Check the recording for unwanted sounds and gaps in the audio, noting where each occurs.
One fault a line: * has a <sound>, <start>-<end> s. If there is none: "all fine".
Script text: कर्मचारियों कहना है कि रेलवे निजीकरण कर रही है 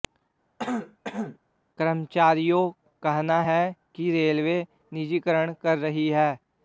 * has a throat clearing, 0.6-1.4 s